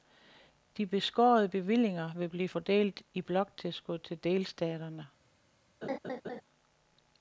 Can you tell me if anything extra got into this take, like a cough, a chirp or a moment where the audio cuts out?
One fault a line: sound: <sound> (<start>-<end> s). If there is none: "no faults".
sound: laugh (5.8-6.4 s)